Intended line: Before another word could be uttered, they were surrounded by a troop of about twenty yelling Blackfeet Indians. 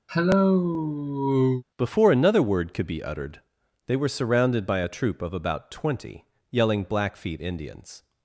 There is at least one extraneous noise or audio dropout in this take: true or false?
true